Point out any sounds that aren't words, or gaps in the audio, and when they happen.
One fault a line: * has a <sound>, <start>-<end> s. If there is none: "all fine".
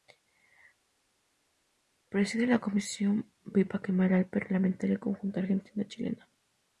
all fine